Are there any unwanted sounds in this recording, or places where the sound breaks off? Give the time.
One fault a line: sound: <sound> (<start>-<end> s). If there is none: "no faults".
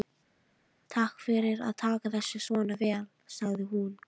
no faults